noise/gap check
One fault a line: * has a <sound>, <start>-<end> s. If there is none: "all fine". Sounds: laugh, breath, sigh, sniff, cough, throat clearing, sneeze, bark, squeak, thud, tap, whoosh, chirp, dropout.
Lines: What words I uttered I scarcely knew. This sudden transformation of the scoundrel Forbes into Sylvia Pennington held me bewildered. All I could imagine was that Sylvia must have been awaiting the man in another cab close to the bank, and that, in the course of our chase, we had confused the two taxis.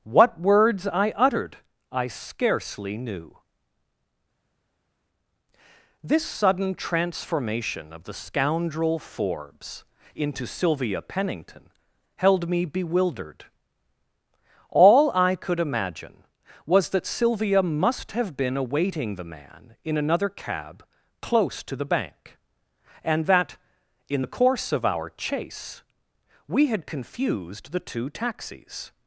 all fine